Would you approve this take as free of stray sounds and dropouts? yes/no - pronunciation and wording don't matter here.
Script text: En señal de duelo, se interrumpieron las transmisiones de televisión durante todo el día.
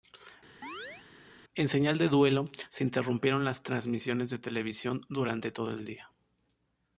no